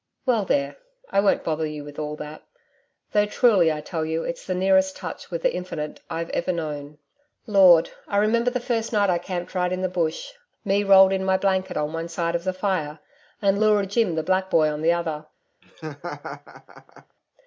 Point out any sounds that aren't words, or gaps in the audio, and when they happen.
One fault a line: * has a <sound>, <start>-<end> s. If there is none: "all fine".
* has a laugh, 15.6-17.2 s